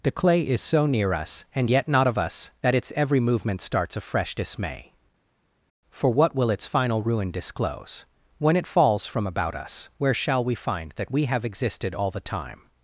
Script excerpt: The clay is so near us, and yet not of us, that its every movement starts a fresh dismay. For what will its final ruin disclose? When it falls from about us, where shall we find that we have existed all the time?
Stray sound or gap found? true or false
false